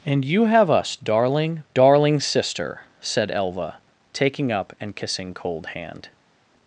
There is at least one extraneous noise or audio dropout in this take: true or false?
false